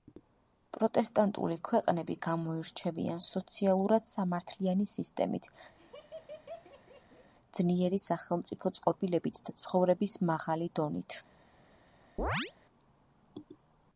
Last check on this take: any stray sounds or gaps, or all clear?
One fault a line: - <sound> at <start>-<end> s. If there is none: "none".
- laugh at 5.8-7.3 s
- chirp at 12.2-12.5 s